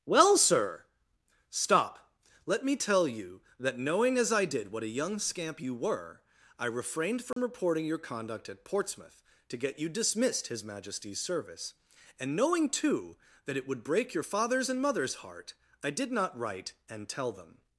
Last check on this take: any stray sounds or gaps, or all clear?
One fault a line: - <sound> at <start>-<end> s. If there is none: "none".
- dropout at 7.3-7.4 s